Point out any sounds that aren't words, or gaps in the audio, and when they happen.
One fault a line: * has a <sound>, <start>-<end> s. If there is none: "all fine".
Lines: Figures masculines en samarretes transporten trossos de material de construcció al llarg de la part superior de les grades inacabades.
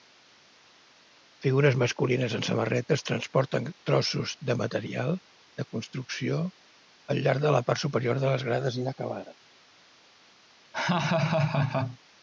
* has a laugh, 10.7-12.0 s